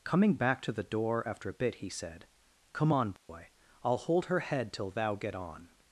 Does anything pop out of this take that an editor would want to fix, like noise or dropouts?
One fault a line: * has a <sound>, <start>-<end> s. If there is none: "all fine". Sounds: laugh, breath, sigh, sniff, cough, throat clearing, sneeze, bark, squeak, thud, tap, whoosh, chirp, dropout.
* has a dropout, 3.2-3.3 s